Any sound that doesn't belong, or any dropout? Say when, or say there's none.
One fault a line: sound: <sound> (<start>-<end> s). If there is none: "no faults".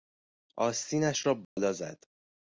sound: dropout (1.4-1.6 s)